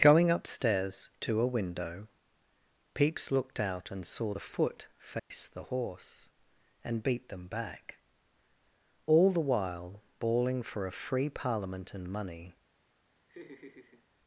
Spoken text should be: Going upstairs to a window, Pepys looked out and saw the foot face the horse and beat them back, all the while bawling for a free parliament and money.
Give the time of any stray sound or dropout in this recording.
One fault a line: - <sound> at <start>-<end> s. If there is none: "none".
- dropout at 5.2-5.3 s
- laugh at 13.3-14.1 s